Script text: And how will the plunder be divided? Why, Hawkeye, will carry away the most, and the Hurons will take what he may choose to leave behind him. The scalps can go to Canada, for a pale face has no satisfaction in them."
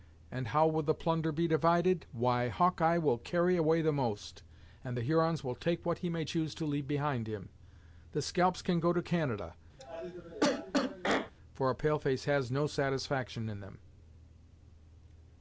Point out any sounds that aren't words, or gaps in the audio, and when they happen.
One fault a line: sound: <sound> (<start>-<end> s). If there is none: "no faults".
sound: cough (9.8-11.3 s)